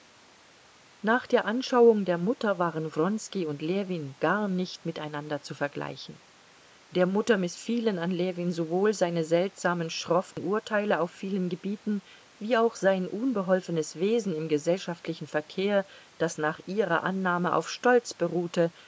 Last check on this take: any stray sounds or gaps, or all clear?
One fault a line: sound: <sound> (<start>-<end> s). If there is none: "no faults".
sound: dropout (10.3-10.4 s)